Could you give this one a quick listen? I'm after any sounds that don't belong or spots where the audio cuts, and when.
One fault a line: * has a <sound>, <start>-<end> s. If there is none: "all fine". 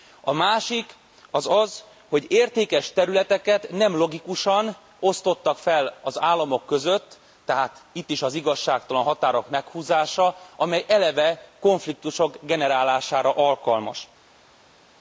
all fine